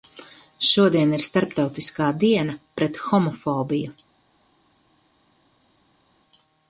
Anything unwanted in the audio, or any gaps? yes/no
no